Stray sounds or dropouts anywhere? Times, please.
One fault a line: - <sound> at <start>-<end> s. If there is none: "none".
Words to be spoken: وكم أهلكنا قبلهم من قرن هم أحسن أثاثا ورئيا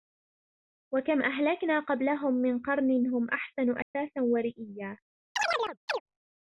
- dropout at 3.8-3.9 s
- chirp at 5.4-6.0 s